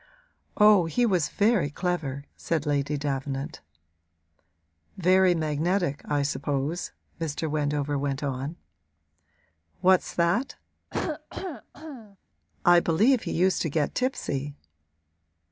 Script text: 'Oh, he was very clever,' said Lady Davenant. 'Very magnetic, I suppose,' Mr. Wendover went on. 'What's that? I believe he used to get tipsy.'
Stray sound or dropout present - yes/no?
yes